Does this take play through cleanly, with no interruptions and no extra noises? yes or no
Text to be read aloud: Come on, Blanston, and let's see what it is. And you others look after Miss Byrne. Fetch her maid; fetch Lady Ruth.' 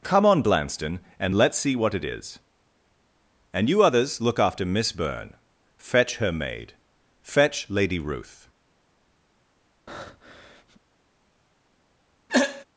no